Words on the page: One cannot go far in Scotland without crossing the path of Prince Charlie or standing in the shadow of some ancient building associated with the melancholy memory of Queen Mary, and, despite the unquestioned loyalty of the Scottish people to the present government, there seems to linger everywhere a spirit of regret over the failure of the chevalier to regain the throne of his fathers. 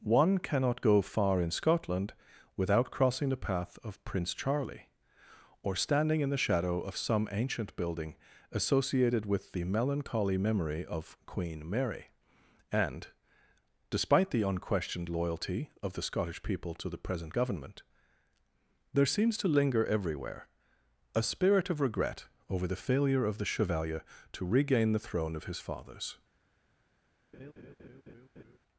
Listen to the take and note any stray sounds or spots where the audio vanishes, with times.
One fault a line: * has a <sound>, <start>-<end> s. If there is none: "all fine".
* has a laugh, 27.3-28.6 s